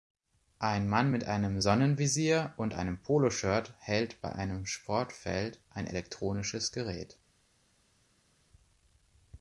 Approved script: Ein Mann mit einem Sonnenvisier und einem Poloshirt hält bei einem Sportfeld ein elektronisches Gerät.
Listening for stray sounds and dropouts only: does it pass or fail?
pass